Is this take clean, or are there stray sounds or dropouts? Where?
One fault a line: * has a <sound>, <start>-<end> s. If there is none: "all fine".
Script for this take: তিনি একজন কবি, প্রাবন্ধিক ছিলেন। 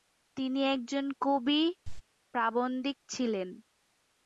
* has a cough, 1.8-2.0 s